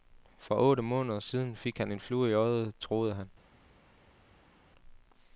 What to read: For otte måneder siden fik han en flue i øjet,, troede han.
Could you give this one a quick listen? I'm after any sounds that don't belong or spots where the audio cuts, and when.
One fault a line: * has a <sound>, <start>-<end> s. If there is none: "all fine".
all fine